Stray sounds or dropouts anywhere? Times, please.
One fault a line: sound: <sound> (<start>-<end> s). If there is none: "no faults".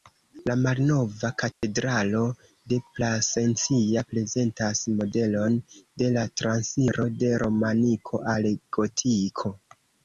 sound: dropout (1.5-1.6 s)